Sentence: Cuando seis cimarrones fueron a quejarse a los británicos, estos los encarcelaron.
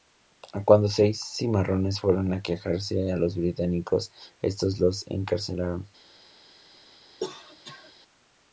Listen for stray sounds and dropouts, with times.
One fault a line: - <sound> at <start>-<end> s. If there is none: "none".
- cough at 7.2-7.9 s